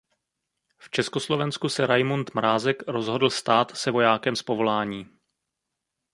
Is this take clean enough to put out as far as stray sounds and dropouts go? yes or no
yes